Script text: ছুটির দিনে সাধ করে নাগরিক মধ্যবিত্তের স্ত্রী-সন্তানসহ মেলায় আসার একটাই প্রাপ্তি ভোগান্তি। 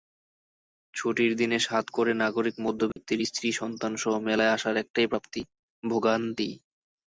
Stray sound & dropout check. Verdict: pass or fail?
fail